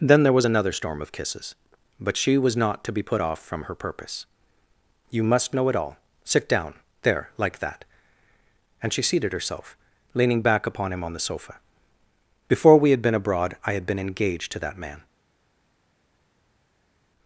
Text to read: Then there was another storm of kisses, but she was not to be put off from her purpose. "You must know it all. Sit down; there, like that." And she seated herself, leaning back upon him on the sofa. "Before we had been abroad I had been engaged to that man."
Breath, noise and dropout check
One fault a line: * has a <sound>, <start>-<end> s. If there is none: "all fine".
all fine